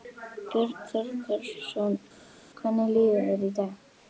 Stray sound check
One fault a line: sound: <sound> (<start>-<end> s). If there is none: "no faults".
no faults